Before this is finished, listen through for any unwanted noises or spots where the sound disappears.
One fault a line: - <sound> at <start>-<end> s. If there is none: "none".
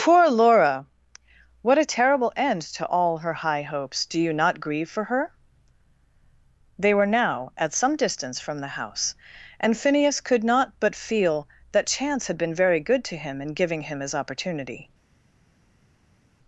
none